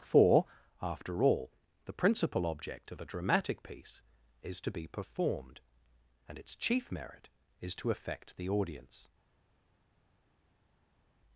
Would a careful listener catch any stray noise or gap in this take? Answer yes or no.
no